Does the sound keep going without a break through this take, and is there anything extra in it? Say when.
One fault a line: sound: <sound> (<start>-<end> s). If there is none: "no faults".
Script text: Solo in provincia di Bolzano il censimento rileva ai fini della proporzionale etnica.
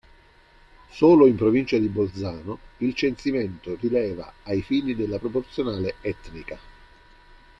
no faults